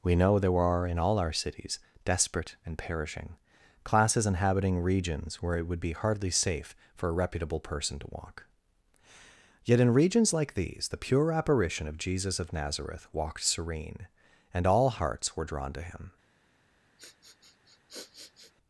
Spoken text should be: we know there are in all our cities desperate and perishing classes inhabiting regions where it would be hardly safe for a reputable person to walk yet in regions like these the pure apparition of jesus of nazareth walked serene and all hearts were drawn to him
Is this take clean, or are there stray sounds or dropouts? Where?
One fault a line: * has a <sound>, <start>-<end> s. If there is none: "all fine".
* has a sniff, 17.0-18.5 s